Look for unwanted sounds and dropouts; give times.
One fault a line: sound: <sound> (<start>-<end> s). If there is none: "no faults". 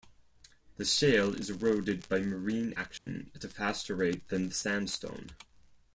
sound: dropout (3.0-3.1 s)